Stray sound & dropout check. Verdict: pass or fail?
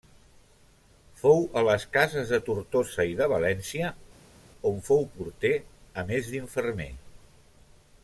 pass